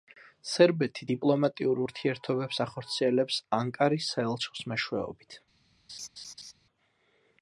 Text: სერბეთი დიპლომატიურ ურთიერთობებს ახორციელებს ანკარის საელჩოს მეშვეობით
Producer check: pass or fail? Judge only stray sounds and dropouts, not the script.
fail